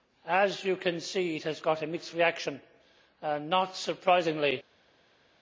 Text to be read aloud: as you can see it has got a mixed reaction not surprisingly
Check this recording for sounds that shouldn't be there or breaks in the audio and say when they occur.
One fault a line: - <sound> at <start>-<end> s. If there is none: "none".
none